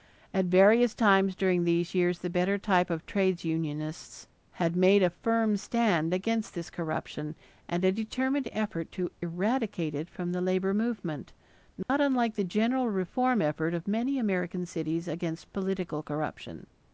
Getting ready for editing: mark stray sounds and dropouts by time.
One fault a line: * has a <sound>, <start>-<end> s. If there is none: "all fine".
* has a dropout, 11.8-11.9 s